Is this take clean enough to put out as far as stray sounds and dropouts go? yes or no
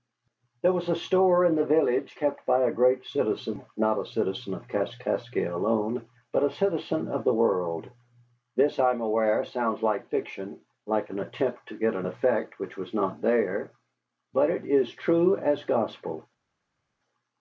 yes